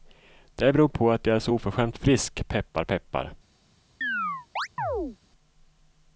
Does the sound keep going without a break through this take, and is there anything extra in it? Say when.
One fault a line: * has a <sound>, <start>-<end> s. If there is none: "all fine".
* has a chirp, 4.0-5.2 s